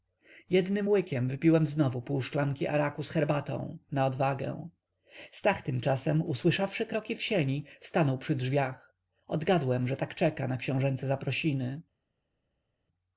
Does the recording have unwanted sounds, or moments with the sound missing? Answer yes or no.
no